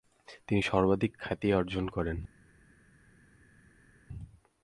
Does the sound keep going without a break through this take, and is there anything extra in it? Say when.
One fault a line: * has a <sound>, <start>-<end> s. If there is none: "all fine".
all fine